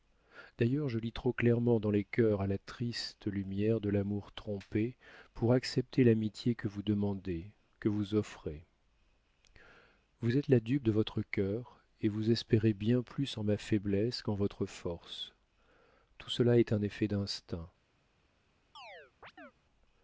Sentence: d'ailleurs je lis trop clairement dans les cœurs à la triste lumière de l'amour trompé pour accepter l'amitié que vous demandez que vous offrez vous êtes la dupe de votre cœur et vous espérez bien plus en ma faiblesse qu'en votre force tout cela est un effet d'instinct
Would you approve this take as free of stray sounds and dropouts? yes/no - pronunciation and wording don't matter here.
no